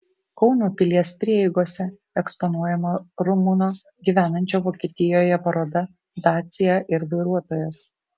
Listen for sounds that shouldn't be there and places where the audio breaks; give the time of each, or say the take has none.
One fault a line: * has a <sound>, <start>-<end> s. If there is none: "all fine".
all fine